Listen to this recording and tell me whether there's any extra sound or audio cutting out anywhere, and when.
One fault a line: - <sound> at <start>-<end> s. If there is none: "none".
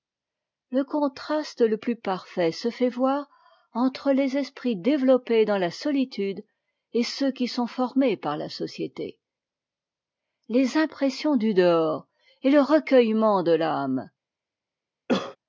- cough at 15.1-15.4 s